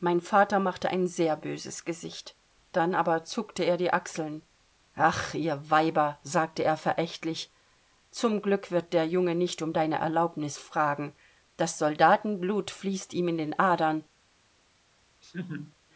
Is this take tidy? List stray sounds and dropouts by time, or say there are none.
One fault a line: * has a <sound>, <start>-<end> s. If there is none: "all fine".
* has a laugh, 15.2-15.8 s